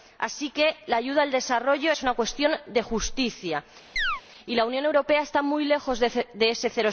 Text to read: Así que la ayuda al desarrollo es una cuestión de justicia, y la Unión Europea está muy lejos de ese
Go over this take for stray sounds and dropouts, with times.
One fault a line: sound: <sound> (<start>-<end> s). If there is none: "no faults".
sound: chirp (4.0-4.2 s)